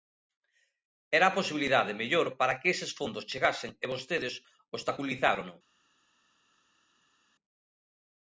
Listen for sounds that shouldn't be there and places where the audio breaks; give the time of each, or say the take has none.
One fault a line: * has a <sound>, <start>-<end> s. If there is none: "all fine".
all fine